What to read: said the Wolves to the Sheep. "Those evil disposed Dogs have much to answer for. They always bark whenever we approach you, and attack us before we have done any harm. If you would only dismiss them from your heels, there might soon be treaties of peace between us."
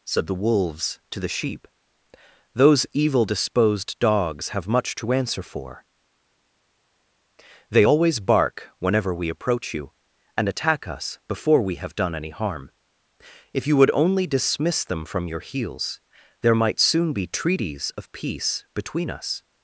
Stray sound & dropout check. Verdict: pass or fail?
pass